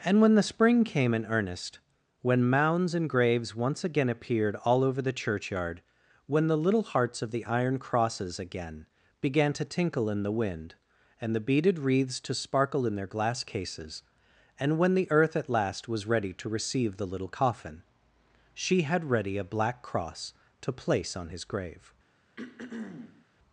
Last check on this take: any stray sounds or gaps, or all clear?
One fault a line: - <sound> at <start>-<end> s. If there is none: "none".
- throat clearing at 22.4-23.3 s